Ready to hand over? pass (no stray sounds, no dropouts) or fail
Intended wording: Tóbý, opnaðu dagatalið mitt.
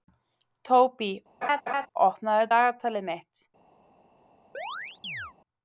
fail